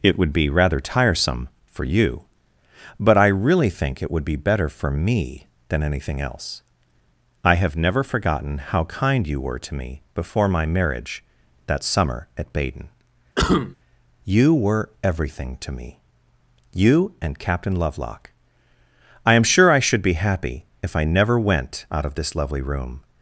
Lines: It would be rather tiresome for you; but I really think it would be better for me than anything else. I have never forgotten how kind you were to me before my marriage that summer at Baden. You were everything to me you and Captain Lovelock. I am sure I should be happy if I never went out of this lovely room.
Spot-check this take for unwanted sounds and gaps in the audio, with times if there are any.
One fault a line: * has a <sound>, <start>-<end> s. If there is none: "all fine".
* has a cough, 13.4-13.8 s